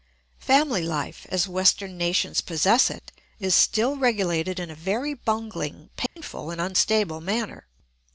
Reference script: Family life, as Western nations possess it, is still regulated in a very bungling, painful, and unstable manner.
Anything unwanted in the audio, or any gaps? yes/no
yes